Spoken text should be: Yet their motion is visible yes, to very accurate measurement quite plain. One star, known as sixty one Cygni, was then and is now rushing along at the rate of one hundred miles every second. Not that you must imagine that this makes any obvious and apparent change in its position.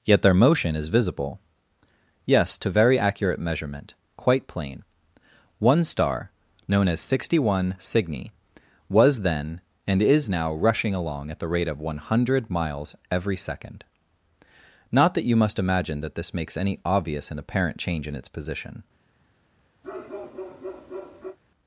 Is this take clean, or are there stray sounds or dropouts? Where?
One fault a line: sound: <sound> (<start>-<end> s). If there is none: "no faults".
sound: bark (19.8-21.4 s)